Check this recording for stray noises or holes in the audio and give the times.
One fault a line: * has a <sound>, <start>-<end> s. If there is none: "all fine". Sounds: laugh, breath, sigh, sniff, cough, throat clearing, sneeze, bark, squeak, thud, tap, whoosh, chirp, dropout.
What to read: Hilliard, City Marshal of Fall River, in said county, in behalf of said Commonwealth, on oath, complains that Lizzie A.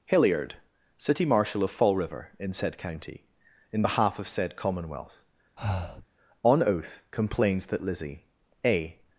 * has a breath, 5.6-6.1 s